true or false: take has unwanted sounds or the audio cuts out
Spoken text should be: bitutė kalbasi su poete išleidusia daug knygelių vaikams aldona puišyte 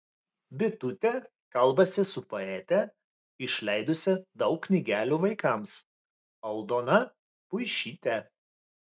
false